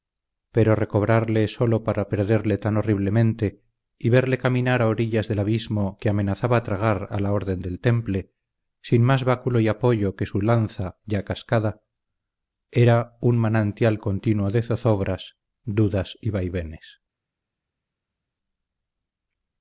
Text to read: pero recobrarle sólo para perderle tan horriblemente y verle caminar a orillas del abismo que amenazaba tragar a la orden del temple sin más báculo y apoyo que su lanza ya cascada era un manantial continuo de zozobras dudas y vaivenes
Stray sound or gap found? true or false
false